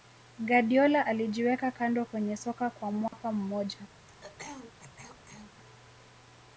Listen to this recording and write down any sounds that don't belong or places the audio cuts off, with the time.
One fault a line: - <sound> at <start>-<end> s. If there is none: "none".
- dropout at 3.1-3.1 s
- throat clearing at 4.0-5.5 s